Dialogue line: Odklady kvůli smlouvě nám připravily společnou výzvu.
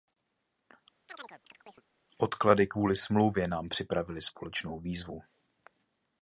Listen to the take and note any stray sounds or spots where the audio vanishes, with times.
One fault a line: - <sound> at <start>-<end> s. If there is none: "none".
- chirp at 1.1-1.8 s